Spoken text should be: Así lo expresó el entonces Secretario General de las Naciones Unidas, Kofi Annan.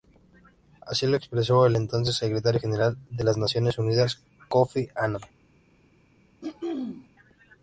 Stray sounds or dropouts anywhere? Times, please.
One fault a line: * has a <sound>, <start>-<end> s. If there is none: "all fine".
* has a throat clearing, 6.4-7.1 s